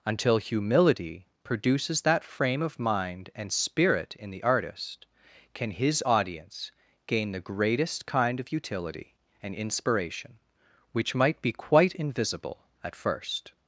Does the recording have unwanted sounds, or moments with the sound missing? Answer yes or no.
no